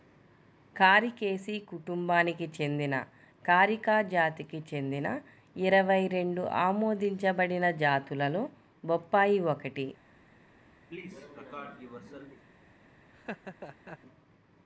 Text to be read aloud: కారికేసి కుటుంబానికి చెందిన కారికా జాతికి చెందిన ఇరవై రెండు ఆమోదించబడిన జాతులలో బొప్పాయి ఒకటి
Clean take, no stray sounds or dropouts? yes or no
no